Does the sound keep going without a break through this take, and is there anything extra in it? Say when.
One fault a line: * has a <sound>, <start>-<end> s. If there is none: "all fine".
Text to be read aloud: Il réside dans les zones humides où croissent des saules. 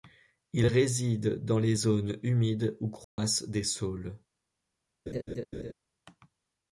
* has a dropout, 3.0-3.2 s
* has a laugh, 5.1-5.7 s